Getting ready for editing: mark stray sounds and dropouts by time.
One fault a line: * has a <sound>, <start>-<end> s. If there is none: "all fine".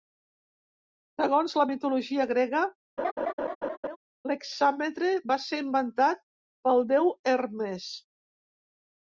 * has a laugh, 3.0-4.0 s